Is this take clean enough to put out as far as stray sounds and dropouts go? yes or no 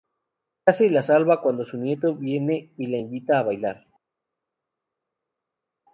yes